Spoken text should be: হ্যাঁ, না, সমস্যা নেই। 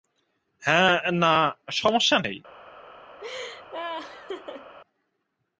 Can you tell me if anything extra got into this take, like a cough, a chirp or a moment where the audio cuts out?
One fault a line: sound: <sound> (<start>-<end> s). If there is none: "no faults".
sound: laugh (3.2-4.7 s)